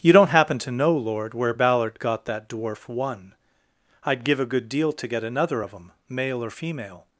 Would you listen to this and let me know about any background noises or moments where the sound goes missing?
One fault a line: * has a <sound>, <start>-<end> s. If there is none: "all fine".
all fine